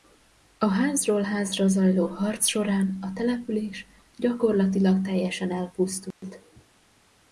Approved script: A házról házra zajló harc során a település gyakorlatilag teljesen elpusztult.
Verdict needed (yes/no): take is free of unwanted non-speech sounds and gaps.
no